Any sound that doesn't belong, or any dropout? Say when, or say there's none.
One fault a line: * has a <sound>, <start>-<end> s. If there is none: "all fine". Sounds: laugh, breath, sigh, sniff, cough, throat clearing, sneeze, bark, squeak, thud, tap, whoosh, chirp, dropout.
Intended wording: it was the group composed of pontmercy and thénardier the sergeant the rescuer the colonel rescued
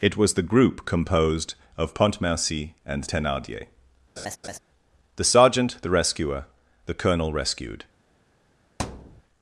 * has a laugh, 4.2-4.6 s
* has a thud, 8.8-9.2 s